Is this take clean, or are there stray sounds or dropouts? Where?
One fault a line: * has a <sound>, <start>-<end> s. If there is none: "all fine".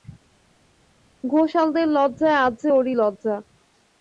all fine